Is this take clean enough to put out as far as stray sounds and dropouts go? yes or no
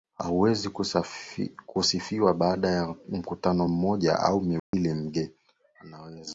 no